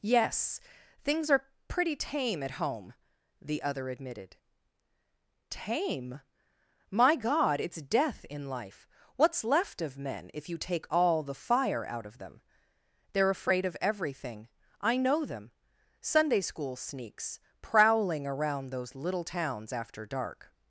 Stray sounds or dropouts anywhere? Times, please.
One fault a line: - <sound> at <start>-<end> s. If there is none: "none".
none